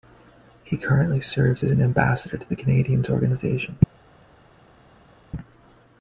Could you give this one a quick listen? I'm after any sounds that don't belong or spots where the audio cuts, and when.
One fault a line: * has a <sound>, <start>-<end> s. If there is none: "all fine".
all fine